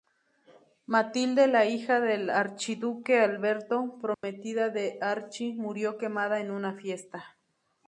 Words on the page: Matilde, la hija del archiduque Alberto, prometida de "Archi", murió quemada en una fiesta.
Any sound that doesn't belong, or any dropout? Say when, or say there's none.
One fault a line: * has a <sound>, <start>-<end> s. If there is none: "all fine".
* has a dropout, 4.1-4.2 s